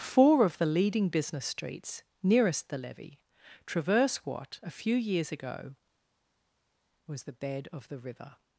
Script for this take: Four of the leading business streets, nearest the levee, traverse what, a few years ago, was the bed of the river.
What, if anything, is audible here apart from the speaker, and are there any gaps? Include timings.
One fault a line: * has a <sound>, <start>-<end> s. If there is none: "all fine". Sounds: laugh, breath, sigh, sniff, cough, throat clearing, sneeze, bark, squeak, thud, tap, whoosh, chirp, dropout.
all fine